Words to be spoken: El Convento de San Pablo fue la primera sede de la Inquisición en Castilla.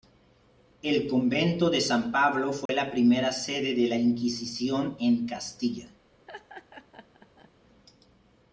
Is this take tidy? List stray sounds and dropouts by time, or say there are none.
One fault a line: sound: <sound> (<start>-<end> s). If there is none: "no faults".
sound: dropout (2.7-2.7 s)
sound: laugh (6.3-7.5 s)